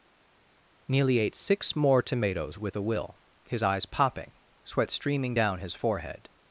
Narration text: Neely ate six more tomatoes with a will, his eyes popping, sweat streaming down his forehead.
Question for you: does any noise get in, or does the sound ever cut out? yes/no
no